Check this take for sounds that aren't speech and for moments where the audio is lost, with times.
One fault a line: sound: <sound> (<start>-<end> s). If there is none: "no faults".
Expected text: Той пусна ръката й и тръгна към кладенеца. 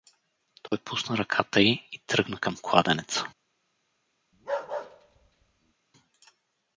sound: dropout (0.7-0.7 s)
sound: bark (4.3-5.7 s)